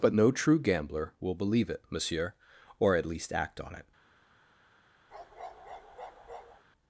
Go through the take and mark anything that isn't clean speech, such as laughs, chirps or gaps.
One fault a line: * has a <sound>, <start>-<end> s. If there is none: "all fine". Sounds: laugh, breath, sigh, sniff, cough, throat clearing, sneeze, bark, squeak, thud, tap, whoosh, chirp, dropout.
* has a bark, 5.1-6.6 s